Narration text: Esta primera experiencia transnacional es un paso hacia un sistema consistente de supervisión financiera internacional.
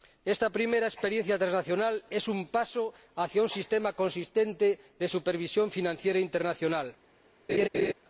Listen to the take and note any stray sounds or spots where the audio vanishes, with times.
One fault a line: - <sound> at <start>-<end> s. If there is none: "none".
- laugh at 7.5-7.9 s